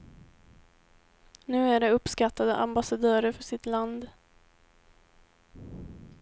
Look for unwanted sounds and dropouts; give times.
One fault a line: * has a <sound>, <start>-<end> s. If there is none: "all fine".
all fine